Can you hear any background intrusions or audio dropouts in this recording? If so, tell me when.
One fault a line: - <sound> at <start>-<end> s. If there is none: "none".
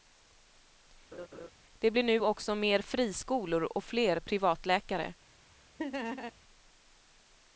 - laugh at 1.1-1.5 s
- laugh at 5.8-6.3 s